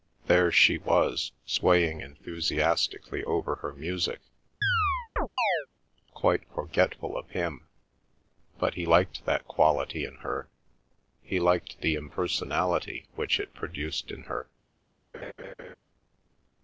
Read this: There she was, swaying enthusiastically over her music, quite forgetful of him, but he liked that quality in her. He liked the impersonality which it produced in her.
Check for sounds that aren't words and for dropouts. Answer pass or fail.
fail